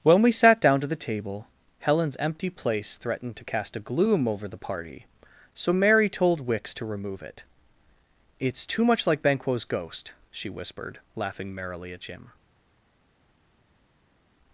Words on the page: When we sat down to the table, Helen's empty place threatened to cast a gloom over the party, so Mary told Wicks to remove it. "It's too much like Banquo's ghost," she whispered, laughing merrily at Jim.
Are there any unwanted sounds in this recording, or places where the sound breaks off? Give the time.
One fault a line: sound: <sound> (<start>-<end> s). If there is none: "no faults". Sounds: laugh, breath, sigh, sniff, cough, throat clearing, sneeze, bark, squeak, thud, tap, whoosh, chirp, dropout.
no faults